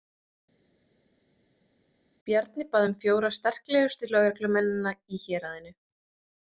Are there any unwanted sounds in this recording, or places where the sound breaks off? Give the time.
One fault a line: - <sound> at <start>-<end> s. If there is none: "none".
none